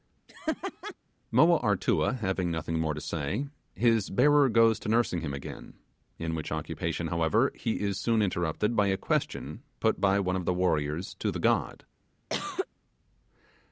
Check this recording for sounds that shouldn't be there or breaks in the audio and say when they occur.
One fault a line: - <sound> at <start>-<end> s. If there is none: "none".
- laugh at 0.3-0.9 s
- cough at 12.3-12.7 s